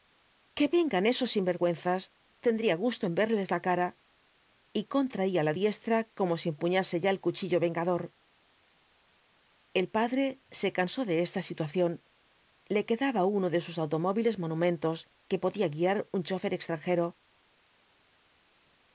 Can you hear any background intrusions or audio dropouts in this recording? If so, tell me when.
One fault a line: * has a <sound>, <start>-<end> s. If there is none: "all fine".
all fine